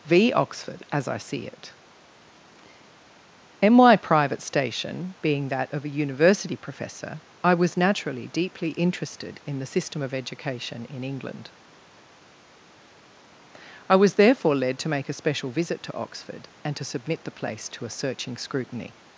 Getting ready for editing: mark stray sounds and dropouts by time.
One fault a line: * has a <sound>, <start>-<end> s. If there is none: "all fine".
all fine